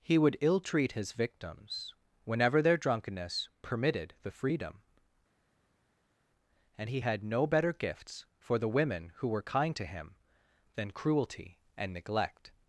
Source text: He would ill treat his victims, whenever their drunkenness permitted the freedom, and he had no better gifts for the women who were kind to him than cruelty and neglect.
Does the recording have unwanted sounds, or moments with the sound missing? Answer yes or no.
no